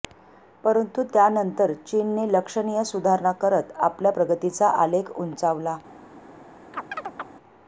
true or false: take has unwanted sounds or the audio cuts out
true